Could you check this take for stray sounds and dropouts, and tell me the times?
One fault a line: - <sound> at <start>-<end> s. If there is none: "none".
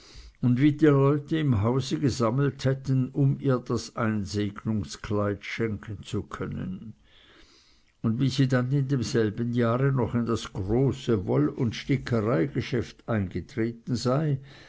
none